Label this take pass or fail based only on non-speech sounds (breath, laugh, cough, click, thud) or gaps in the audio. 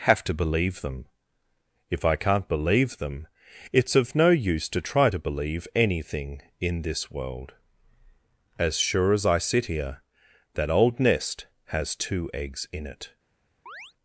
fail